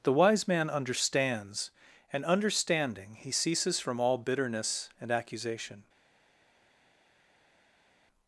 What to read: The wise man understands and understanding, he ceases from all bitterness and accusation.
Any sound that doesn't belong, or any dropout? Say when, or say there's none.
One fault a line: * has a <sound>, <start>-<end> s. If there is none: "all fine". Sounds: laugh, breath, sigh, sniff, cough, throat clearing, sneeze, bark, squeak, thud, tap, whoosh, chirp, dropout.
all fine